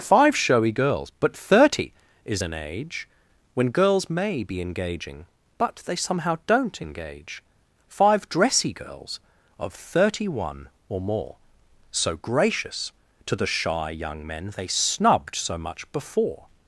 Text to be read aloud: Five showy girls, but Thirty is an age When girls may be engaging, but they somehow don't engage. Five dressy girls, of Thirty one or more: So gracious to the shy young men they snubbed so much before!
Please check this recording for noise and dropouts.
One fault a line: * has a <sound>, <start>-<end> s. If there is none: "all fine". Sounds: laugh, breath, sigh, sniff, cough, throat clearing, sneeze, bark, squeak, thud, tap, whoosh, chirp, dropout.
all fine